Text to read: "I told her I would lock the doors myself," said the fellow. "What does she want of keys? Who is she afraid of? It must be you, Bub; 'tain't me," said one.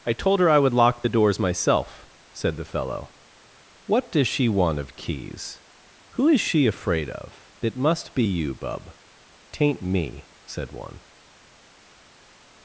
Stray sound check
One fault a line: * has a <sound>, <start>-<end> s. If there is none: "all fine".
all fine